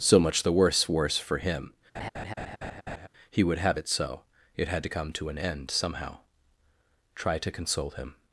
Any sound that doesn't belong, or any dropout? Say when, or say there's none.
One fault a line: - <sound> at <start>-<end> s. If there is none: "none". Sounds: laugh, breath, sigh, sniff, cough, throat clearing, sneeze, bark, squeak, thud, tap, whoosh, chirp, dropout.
- laugh at 1.9-3.1 s